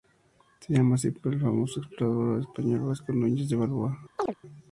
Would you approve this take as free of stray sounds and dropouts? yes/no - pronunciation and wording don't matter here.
no